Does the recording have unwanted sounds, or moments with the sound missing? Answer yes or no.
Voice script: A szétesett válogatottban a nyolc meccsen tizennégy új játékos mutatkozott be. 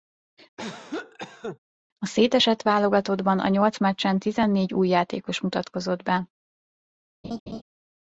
yes